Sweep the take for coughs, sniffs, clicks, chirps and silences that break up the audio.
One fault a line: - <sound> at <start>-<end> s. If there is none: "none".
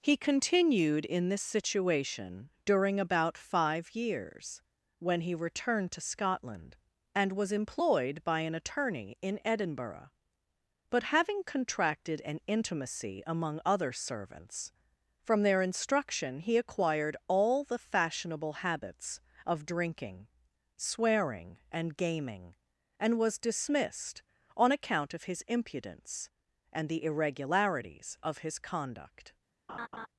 - laugh at 29.7-30.1 s